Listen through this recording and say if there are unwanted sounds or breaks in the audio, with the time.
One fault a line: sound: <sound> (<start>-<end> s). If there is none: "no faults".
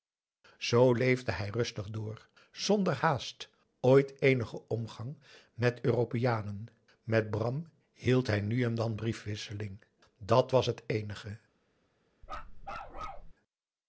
sound: bark (12.2-13.3 s)